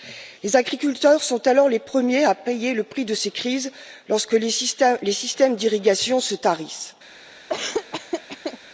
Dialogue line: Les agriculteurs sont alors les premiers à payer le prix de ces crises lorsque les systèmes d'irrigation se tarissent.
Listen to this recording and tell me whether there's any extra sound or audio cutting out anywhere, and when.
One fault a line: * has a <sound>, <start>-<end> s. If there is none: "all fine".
* has a laugh, 7.5-8.6 s